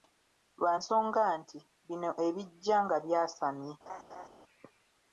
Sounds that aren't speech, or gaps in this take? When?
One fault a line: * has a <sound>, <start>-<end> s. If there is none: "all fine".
* has a laugh, 3.9-4.3 s